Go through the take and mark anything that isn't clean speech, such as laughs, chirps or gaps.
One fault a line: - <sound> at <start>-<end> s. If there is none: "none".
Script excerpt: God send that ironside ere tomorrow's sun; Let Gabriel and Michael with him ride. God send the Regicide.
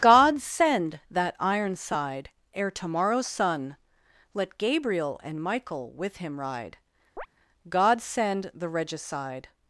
- chirp at 7.2-7.3 s